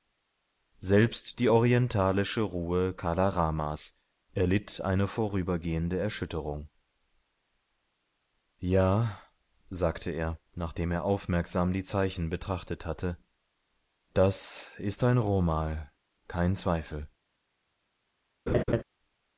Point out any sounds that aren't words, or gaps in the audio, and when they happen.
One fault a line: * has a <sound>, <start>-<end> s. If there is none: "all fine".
* has a laugh, 18.5-18.8 s